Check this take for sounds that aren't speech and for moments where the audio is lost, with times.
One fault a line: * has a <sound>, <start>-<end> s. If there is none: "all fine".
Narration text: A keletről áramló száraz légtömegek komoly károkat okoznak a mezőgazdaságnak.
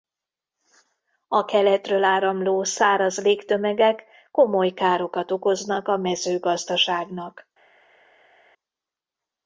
all fine